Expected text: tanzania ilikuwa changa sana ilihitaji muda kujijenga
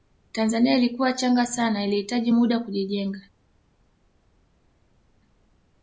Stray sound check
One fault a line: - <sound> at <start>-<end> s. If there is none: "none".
none